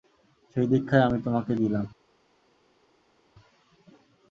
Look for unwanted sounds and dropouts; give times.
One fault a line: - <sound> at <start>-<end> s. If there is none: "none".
none